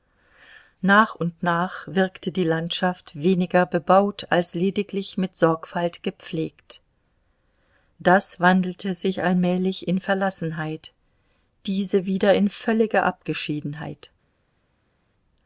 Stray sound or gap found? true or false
false